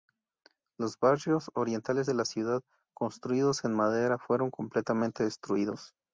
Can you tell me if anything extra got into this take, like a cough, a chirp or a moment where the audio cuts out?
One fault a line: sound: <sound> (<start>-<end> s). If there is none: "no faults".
no faults